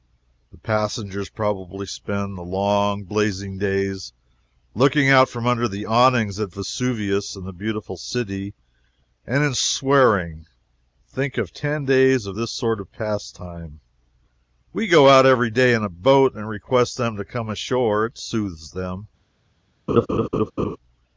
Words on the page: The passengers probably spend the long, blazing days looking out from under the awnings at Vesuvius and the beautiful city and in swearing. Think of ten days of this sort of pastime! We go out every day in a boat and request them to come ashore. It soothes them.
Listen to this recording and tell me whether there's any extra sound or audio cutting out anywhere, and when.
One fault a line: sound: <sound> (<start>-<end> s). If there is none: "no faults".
sound: laugh (19.9-20.8 s)